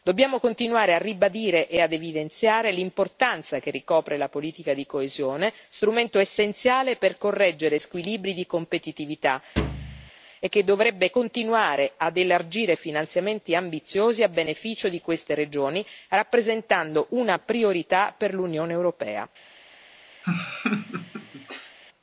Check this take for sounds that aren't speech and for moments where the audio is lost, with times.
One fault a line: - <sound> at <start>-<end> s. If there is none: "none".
- thud at 9.6-10.1 s
- laugh at 20.2-21.8 s